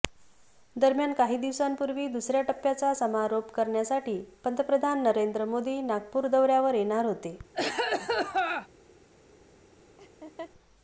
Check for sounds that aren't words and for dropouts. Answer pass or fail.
fail